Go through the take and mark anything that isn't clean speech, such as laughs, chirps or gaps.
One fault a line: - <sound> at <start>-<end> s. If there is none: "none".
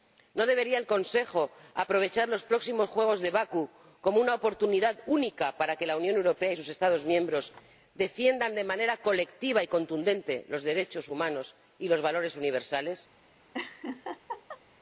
- laugh at 13.5-14.6 s